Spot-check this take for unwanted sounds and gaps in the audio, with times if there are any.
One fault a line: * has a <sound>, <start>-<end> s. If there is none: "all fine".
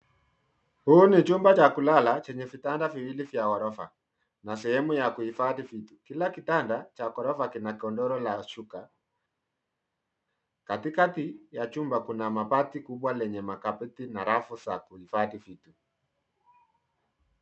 all fine